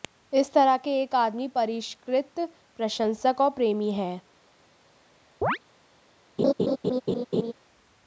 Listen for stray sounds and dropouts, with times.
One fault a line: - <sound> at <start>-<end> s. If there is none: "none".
- chirp at 5.4-5.6 s
- laugh at 6.4-7.5 s